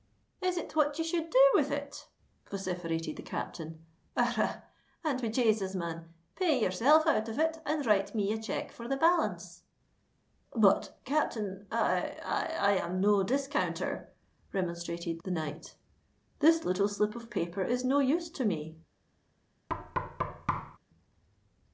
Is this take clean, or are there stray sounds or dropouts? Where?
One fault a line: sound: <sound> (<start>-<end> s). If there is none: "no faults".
sound: thud (19.7-20.8 s)